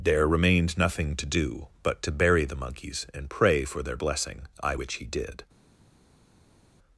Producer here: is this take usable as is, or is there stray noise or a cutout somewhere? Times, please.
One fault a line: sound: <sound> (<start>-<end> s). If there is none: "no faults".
no faults